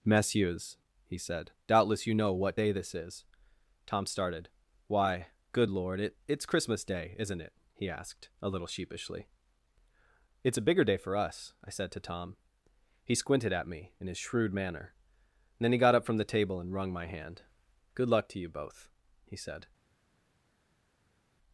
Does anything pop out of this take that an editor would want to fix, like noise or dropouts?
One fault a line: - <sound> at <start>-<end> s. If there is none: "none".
none